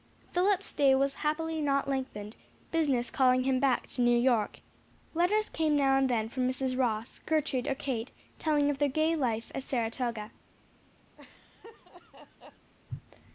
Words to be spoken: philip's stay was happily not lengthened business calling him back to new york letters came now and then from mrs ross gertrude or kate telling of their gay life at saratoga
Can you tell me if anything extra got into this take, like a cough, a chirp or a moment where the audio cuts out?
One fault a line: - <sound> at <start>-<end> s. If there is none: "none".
- laugh at 11.2-12.7 s